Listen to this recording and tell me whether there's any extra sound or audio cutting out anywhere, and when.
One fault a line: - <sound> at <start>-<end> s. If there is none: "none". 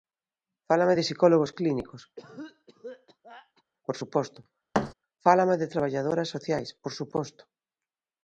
- cough at 2.2-3.6 s
- thud at 4.7-4.9 s